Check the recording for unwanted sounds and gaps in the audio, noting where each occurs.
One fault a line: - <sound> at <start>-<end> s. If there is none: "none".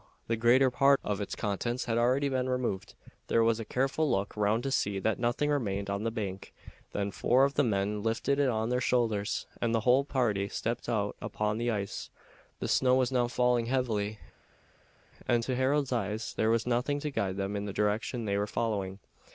none